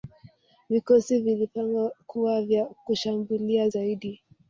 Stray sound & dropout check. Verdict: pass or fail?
pass